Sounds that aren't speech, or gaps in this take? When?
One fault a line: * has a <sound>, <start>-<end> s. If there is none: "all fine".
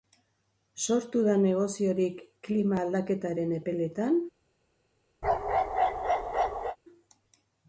* has a bark, 5.2-6.8 s